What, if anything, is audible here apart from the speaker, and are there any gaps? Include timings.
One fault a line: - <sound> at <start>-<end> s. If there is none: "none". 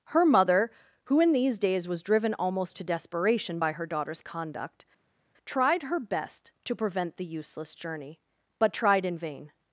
none